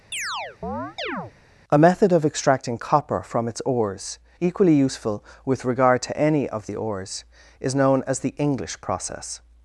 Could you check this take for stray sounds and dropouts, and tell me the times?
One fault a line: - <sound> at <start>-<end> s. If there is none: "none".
- chirp at 0.1-1.3 s